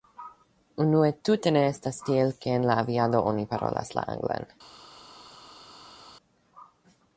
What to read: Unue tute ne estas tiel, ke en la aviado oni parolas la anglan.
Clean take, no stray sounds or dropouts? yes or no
yes